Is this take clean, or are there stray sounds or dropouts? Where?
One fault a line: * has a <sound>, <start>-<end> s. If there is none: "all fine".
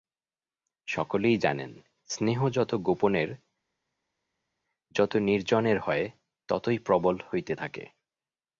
all fine